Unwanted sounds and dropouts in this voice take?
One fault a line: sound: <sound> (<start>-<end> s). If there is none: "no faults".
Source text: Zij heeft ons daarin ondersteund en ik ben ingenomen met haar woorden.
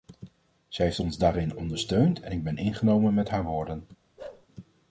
sound: bark (4.2-4.5 s)